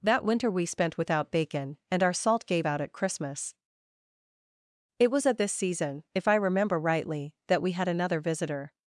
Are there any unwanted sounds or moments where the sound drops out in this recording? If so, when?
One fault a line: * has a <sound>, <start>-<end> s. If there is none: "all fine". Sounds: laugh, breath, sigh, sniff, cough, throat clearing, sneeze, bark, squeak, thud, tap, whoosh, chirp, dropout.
all fine